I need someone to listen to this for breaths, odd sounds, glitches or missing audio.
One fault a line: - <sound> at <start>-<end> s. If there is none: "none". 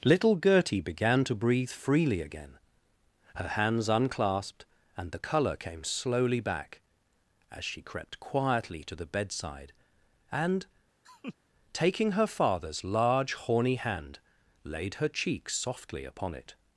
- laugh at 11.0-11.3 s